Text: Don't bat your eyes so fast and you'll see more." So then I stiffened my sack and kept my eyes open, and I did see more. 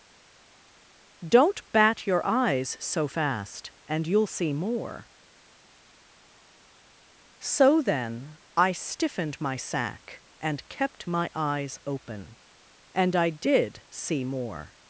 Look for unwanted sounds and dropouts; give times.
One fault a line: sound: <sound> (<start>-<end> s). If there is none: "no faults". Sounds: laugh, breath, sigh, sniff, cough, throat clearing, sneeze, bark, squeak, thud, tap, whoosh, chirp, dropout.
no faults